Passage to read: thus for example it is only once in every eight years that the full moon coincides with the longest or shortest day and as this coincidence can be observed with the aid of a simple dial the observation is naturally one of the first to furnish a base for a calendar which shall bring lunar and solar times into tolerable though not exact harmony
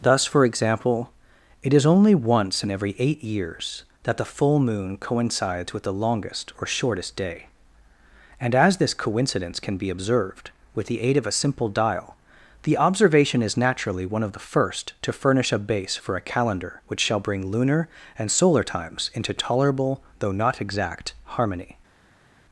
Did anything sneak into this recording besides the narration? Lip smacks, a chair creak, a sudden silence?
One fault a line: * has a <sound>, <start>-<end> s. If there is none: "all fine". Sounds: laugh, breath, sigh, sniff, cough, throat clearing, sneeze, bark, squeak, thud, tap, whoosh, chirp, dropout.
all fine